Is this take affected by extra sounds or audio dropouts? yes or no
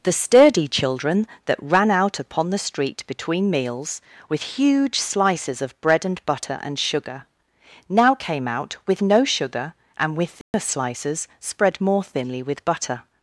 yes